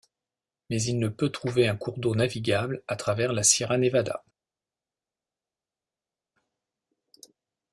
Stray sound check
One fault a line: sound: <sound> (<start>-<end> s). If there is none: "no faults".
no faults